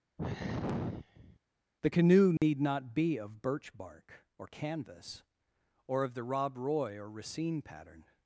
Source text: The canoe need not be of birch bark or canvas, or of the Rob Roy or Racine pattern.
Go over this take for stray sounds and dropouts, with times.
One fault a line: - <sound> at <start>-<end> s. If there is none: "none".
- sigh at 0.2-1.4 s
- dropout at 2.4-2.4 s